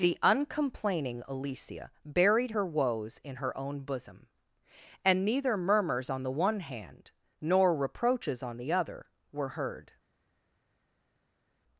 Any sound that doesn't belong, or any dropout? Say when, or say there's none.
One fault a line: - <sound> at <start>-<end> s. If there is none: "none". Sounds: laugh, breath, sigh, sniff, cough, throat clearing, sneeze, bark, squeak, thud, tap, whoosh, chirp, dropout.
none